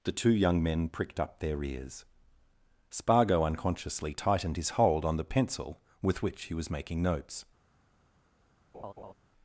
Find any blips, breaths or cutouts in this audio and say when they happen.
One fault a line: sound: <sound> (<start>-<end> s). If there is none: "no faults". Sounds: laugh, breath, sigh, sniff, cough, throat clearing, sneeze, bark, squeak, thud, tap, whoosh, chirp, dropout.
sound: laugh (8.7-9.1 s)